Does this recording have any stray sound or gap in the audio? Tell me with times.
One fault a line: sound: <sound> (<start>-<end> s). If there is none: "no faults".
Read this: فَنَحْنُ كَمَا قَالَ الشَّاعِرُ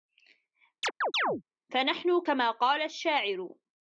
sound: chirp (0.8-1.4 s)